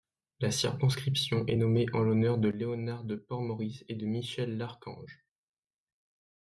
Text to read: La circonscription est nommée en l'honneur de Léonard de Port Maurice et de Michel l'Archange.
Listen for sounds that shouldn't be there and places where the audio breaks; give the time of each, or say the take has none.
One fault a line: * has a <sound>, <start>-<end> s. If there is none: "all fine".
all fine